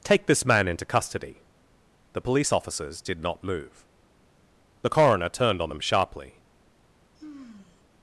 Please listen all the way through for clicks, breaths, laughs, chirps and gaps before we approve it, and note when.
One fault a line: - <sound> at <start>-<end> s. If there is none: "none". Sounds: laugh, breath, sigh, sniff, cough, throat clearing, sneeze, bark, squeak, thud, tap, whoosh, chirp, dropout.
- sigh at 7.1-7.8 s